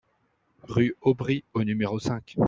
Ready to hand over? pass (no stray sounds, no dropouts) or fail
pass